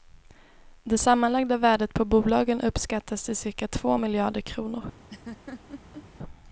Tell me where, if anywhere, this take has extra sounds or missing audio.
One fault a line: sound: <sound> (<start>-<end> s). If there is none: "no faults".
sound: laugh (5.1-6.1 s)